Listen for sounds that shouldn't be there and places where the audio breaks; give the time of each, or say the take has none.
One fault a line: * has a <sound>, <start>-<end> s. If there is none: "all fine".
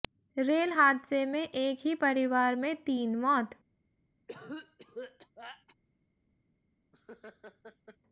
* has a cough, 4.3-5.8 s
* has a laugh, 6.9-8.0 s